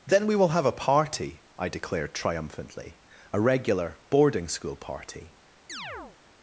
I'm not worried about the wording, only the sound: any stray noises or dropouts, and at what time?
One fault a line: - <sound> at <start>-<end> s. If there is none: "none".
- chirp at 5.7-6.2 s